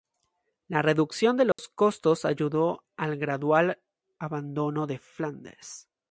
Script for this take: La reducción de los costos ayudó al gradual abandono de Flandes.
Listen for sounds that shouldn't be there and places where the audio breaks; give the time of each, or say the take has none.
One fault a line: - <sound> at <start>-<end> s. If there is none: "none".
- dropout at 1.5-1.6 s